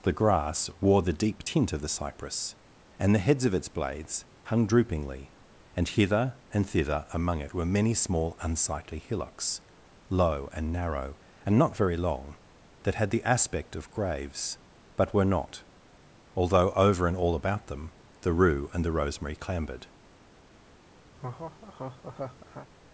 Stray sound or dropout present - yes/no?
yes